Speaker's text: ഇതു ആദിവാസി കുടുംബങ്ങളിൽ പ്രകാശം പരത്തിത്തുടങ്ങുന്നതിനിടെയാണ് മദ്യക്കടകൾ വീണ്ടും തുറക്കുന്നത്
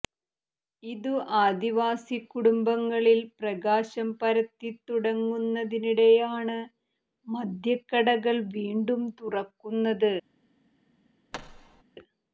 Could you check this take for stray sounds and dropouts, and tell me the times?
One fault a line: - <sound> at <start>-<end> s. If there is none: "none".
- thud at 11.3-11.8 s